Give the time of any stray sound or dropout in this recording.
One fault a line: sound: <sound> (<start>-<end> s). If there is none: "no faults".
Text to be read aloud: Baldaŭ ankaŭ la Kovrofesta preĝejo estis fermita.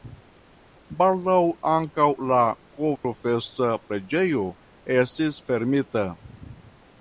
sound: dropout (3.0-3.0 s)